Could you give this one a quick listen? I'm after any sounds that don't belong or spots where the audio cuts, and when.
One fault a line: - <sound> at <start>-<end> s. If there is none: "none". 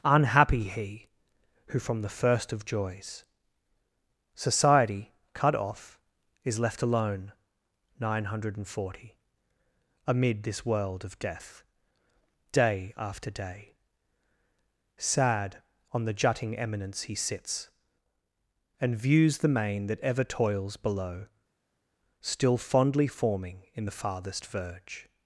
none